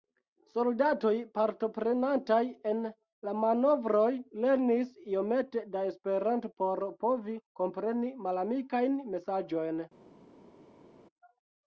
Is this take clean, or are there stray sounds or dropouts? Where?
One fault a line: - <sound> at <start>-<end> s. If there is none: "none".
none